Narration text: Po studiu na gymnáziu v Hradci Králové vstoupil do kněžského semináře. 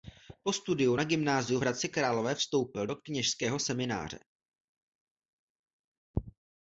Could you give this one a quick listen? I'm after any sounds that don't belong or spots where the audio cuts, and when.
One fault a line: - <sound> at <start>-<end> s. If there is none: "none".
none